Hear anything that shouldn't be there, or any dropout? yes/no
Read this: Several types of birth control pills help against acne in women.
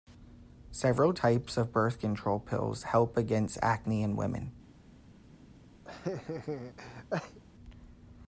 yes